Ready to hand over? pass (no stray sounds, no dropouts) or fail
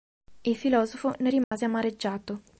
fail